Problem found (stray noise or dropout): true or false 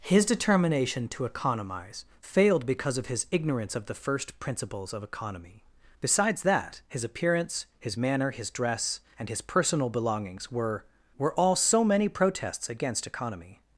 false